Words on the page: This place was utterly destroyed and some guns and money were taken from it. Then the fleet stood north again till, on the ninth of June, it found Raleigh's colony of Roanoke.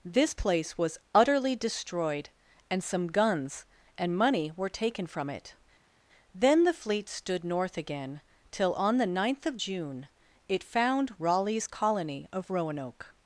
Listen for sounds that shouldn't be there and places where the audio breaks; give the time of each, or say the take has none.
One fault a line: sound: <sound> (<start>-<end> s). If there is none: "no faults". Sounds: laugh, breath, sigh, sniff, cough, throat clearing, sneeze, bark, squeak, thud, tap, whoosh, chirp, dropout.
no faults